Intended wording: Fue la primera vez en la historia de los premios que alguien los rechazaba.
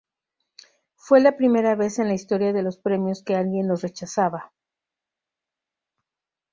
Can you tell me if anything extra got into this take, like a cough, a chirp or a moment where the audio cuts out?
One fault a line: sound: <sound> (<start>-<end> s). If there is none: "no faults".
no faults